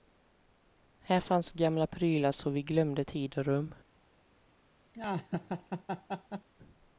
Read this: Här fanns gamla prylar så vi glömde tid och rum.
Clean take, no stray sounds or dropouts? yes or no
no